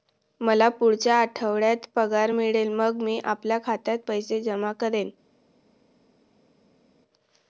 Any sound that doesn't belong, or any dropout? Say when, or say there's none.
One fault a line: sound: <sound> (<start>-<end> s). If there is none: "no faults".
no faults